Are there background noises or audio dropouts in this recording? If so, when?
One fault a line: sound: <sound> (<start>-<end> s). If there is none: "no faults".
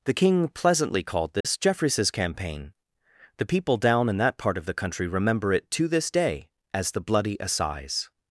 sound: dropout (1.4-1.4 s)